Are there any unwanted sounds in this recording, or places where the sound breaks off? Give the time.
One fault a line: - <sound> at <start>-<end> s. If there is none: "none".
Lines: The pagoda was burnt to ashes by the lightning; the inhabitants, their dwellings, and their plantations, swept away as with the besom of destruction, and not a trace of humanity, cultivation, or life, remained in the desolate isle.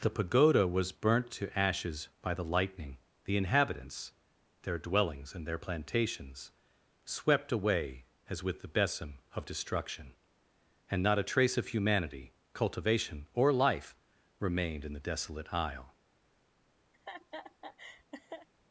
- laugh at 16.9-18.5 s